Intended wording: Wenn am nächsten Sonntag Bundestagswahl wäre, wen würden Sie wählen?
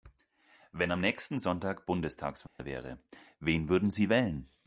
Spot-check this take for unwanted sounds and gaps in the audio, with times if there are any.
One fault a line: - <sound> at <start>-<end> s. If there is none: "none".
- dropout at 2.5-2.6 s